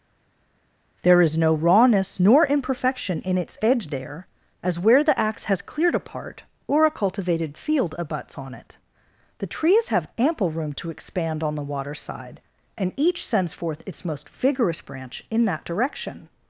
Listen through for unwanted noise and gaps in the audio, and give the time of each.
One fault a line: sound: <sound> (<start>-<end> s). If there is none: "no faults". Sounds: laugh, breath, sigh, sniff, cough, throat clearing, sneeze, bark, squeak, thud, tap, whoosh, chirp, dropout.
no faults